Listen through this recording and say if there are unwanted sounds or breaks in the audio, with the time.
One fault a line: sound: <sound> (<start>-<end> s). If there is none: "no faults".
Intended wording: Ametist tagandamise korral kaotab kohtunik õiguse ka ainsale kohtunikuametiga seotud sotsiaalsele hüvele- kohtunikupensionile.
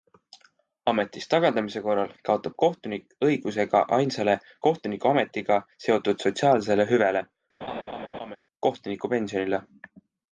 sound: laugh (7.6-8.4 s)